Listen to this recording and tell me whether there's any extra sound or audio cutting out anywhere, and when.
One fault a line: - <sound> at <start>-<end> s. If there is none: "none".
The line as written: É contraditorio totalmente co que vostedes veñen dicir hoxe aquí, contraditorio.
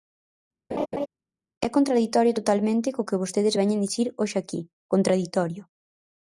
- laugh at 0.7-1.1 s